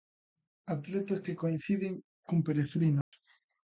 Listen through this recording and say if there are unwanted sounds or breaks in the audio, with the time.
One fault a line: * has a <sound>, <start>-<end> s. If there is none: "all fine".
* has a dropout, 3.0-3.1 s